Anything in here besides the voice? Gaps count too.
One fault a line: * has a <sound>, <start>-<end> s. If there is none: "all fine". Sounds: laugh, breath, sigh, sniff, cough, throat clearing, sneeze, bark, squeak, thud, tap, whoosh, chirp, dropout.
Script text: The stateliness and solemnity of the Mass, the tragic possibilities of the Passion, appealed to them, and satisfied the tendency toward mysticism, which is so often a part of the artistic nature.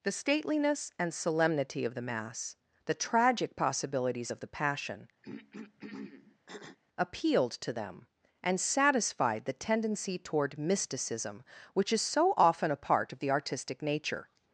* has a throat clearing, 5.2-6.8 s